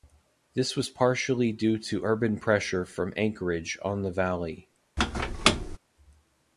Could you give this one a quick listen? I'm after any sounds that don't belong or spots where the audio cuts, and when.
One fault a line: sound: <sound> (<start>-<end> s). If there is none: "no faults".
sound: squeak (5.0-5.8 s)